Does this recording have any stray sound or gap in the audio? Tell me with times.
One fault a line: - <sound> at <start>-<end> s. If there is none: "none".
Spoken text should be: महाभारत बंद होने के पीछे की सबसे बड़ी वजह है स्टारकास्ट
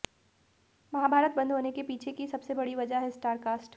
none